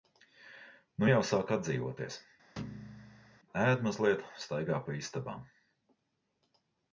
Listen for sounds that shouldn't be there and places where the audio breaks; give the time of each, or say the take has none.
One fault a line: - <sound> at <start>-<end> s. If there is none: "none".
- thud at 2.6-3.4 s